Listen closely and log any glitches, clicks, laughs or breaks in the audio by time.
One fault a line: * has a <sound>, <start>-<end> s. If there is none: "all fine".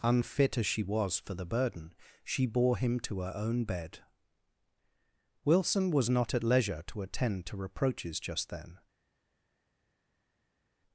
all fine